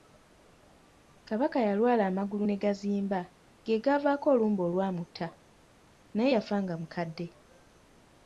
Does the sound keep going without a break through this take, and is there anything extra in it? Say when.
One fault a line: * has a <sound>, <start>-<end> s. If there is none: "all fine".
all fine